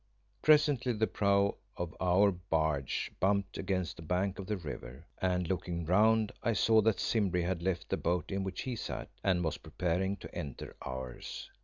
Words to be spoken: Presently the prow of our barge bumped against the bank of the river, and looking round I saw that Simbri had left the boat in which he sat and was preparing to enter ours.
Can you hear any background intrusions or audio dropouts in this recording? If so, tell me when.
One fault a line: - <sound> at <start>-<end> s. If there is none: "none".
none